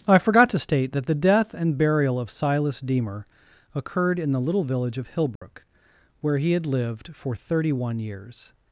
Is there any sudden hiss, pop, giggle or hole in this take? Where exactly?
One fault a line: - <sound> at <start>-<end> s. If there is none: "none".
- dropout at 5.4-5.4 s